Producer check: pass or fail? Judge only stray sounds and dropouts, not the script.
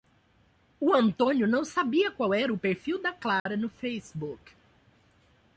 fail